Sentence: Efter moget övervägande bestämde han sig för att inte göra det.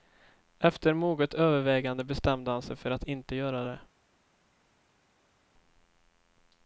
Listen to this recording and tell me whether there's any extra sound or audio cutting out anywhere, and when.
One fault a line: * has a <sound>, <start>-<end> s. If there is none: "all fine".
all fine